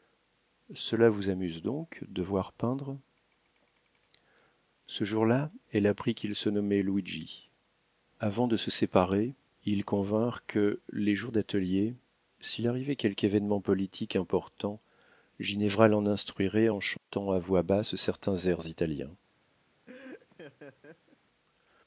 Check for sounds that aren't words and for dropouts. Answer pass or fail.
fail